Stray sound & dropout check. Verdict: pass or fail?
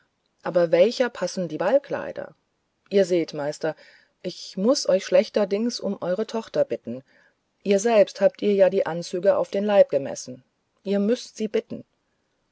pass